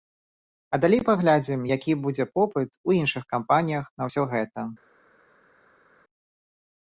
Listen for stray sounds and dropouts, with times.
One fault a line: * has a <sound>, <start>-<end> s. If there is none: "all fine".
all fine